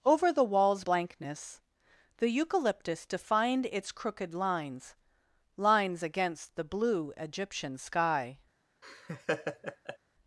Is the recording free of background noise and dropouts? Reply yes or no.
no